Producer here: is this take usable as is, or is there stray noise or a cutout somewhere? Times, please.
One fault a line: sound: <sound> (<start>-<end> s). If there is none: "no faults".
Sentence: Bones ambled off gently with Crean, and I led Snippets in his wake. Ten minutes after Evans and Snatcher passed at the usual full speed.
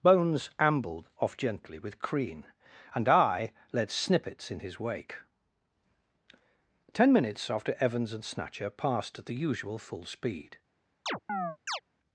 sound: chirp (11.1-11.8 s)